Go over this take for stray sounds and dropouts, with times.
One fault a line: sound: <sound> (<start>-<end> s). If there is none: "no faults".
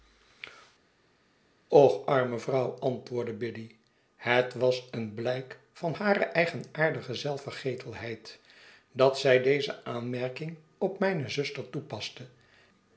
no faults